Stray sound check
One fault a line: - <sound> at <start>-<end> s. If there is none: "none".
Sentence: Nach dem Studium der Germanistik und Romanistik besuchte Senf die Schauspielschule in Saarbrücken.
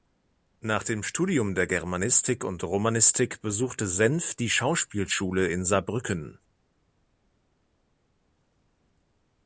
none